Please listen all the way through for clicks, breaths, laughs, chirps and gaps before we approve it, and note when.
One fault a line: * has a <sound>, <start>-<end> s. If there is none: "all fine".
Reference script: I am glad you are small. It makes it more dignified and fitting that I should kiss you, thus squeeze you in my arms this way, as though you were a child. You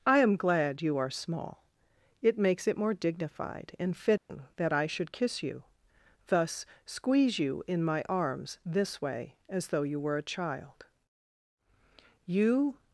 * has a dropout, 4.2-4.3 s